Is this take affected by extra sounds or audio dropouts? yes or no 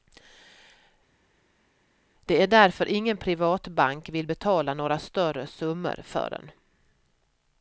no